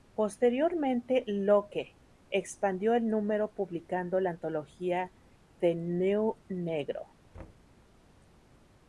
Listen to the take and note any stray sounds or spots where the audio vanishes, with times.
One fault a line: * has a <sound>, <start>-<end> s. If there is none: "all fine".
* has a thud, 7.3-7.7 s